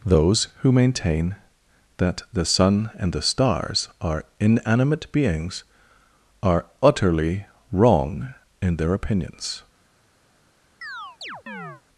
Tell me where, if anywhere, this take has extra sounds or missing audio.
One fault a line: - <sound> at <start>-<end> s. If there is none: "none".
- chirp at 10.8-11.8 s